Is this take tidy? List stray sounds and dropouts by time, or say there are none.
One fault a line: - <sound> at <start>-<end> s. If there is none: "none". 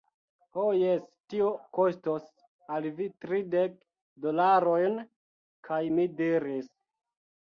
none